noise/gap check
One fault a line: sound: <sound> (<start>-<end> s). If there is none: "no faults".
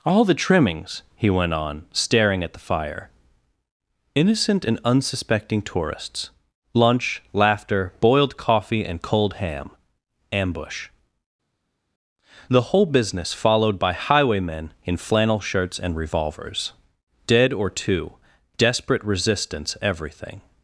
no faults